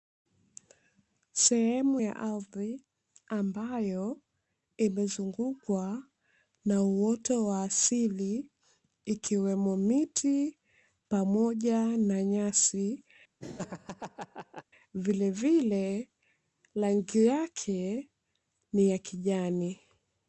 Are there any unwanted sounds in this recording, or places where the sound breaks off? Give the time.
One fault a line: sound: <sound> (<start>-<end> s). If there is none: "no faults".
sound: laugh (13.4-14.6 s)